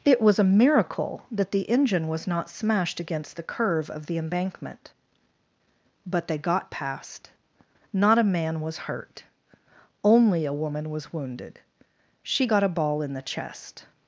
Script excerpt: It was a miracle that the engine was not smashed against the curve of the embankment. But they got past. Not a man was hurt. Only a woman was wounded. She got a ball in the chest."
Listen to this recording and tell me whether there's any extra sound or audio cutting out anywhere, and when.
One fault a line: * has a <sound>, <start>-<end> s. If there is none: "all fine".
all fine